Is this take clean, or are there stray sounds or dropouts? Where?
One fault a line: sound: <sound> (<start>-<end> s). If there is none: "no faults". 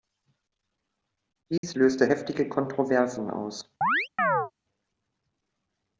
sound: dropout (1.6-1.6 s)
sound: chirp (3.8-4.5 s)